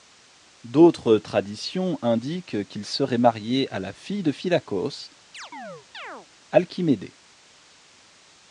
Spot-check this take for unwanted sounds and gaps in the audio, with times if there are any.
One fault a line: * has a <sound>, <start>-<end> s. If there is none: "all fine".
* has a chirp, 5.3-6.3 s